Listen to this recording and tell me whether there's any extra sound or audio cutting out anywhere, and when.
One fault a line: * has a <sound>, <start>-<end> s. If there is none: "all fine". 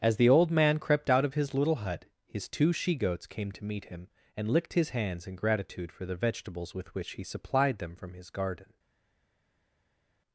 all fine